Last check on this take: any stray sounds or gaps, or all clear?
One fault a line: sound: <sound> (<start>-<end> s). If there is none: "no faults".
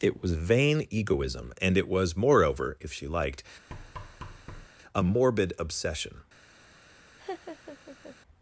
sound: thud (3.7-4.7 s)
sound: laugh (7.2-8.2 s)